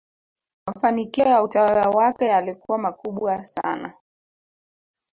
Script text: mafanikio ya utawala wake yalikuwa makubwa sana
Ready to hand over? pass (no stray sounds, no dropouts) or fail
pass